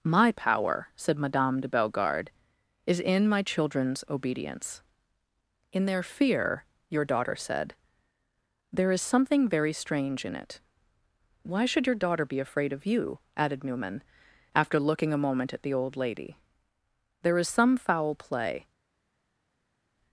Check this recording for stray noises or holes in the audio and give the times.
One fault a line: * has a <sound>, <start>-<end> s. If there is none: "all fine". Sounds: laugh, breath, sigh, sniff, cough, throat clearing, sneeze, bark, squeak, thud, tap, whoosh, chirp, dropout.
all fine